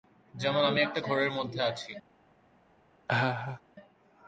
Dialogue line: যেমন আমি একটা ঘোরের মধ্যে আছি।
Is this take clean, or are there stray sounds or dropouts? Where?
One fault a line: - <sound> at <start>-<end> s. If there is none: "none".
- laugh at 3.1-3.6 s